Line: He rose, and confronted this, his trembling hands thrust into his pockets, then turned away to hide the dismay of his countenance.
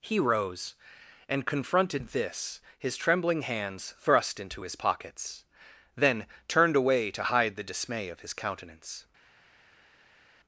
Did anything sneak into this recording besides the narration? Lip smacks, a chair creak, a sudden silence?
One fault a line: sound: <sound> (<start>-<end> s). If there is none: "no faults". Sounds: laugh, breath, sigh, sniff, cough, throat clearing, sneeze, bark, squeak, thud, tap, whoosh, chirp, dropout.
no faults